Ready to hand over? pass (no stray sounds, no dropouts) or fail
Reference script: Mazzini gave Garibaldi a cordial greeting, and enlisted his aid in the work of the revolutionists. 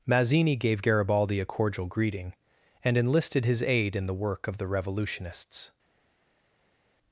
pass